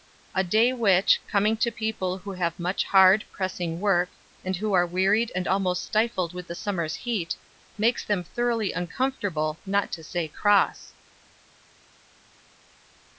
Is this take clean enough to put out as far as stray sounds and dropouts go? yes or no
yes